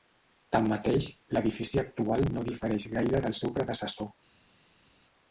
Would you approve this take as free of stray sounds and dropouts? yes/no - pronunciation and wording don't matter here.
yes